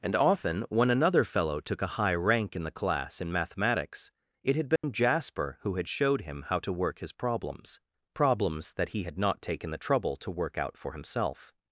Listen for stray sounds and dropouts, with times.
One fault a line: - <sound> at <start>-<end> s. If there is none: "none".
- dropout at 4.8-4.8 s